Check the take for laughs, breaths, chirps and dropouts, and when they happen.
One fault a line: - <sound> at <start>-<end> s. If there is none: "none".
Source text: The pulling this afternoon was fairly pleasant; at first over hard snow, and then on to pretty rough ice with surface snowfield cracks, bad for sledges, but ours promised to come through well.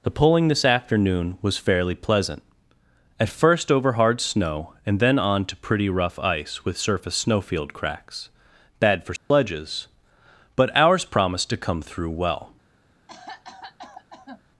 - dropout at 9.2-9.3 s
- cough at 13.1-14.4 s